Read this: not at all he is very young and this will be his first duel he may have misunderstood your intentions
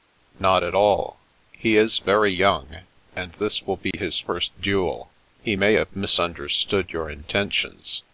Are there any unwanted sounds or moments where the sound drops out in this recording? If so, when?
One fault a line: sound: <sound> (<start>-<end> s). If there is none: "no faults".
sound: dropout (3.9-3.9 s)